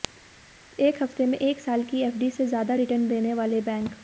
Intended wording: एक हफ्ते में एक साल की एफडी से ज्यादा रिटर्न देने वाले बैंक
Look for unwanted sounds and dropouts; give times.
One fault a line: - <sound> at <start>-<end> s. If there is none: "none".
none